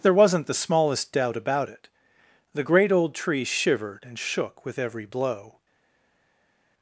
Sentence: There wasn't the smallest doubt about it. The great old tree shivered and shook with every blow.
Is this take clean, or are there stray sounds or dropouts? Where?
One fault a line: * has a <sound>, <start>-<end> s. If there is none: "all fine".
all fine